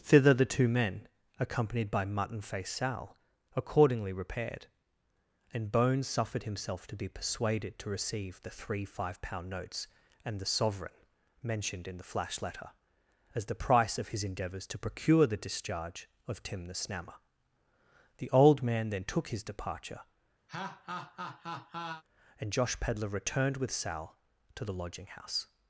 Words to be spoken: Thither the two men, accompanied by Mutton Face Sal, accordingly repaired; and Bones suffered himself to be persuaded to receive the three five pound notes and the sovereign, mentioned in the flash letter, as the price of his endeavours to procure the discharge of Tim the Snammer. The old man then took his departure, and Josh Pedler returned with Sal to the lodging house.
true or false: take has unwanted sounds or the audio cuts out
true